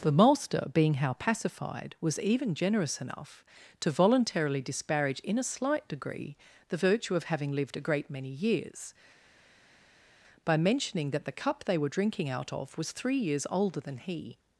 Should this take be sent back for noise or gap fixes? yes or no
no